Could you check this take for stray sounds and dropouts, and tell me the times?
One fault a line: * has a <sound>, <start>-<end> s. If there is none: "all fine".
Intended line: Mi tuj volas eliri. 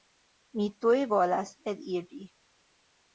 all fine